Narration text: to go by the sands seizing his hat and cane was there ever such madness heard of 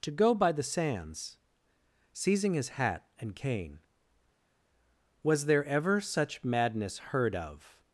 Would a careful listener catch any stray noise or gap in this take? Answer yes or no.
no